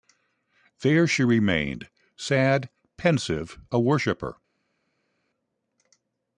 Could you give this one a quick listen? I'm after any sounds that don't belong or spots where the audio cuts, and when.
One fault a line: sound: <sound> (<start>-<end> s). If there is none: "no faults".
no faults